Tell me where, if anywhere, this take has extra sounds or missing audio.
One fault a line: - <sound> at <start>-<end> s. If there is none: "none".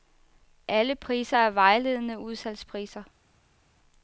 none